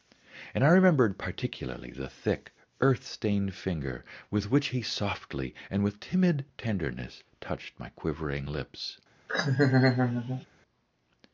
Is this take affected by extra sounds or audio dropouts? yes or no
yes